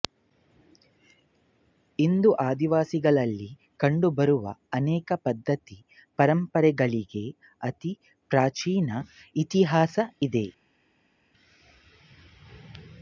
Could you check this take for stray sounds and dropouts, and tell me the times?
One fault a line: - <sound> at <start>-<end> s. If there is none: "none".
none